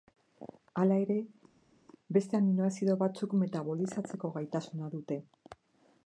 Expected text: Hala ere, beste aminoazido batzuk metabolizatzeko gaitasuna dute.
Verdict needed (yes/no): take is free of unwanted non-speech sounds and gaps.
yes